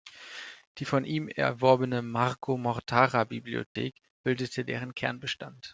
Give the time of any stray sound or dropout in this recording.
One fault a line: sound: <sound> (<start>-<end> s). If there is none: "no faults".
sound: dropout (3.7-3.8 s)